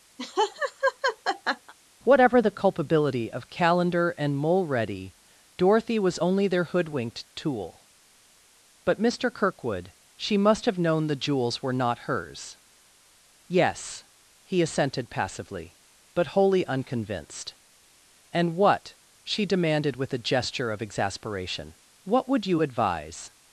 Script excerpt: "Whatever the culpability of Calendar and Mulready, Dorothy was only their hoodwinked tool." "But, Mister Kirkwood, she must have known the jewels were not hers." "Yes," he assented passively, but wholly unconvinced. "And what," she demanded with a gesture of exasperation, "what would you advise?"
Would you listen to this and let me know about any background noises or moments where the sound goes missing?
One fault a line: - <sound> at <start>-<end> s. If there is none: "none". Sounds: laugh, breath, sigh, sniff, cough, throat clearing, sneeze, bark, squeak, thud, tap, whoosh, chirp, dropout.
- laugh at 0.2-1.7 s